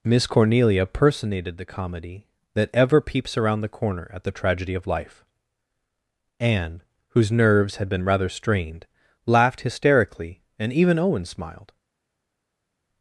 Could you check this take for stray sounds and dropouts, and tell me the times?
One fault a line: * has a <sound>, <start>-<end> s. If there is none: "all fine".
all fine